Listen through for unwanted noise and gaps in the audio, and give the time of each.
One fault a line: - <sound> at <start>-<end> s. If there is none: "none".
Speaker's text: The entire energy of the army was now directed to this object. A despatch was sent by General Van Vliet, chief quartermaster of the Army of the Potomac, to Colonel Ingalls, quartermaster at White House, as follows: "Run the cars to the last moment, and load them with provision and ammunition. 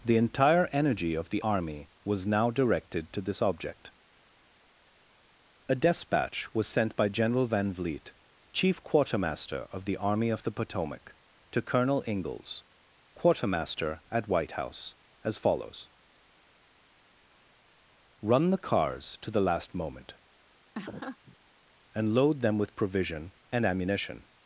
- laugh at 20.7-21.4 s